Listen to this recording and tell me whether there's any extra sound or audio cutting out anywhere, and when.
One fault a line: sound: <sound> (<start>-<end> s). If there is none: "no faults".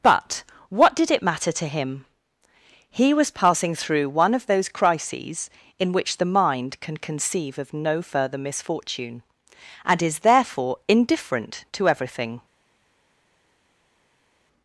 no faults